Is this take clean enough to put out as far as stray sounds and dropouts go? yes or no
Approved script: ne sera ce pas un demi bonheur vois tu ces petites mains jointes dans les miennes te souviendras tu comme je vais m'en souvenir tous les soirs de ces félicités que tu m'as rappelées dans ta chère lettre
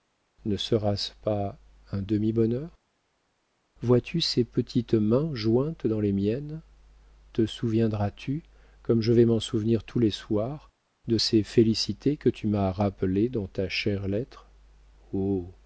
yes